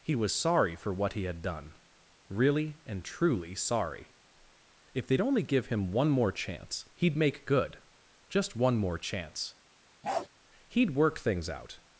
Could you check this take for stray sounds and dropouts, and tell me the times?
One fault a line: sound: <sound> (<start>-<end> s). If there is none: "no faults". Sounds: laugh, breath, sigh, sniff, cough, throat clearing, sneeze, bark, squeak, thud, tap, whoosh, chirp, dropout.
sound: bark (10.0-10.3 s)